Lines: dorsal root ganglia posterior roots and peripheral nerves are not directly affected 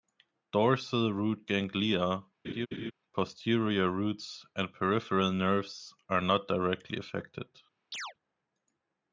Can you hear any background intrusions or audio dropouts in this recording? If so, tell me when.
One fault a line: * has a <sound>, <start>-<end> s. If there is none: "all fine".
* has a laugh, 2.4-2.9 s
* has a chirp, 7.9-8.1 s